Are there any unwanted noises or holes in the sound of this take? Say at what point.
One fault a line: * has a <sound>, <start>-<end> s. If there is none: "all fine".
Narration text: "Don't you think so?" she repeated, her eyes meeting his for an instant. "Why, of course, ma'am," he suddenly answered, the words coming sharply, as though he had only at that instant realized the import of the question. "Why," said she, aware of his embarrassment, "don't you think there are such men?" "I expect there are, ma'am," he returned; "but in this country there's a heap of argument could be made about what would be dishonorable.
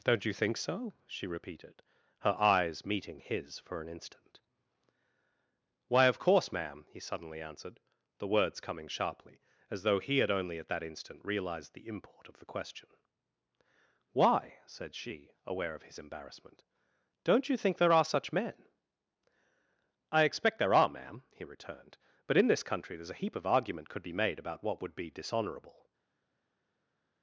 all fine